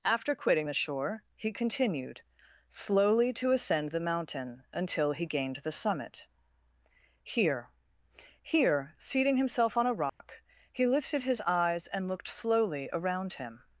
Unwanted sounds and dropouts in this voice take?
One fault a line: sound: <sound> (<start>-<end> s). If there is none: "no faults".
sound: dropout (10.1-10.2 s)